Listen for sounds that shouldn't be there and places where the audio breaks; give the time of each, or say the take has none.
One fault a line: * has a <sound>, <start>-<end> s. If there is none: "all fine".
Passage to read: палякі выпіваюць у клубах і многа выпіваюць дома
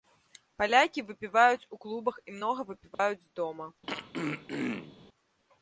* has a dropout, 2.9-3.0 s
* has a throat clearing, 3.9-5.0 s